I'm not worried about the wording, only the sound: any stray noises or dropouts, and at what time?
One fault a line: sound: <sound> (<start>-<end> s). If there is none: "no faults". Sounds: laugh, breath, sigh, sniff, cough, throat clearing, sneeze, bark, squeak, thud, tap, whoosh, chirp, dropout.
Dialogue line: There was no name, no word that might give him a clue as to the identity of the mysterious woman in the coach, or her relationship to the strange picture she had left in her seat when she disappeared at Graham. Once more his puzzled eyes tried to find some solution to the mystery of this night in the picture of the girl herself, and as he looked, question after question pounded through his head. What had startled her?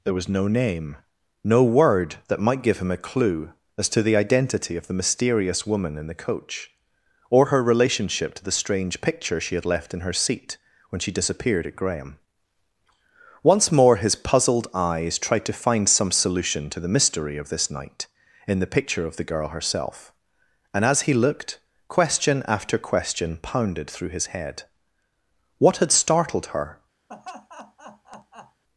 sound: laugh (27.1-28.6 s)